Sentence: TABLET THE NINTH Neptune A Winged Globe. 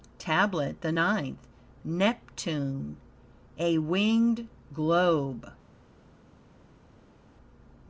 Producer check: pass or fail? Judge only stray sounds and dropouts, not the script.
pass